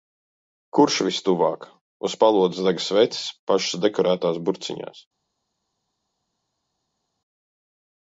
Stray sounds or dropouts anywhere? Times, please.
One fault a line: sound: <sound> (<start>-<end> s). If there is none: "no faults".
no faults